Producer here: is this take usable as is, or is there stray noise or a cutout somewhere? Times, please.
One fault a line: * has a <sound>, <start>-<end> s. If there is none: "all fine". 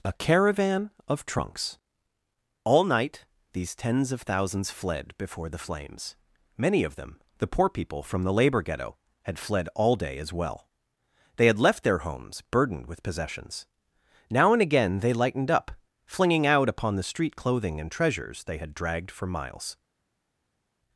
all fine